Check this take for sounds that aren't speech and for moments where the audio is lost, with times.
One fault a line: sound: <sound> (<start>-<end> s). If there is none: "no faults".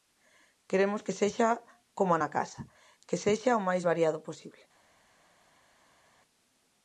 no faults